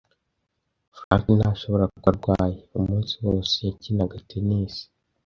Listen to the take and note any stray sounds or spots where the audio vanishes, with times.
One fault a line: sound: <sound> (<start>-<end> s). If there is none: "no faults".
sound: dropout (1.0-1.1 s)